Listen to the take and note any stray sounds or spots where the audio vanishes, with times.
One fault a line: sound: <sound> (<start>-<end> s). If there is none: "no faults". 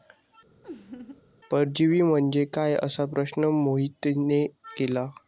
sound: laugh (0.6-1.2 s)